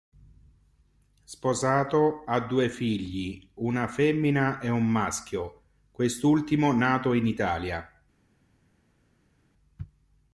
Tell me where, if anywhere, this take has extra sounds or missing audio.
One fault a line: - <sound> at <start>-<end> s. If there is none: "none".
none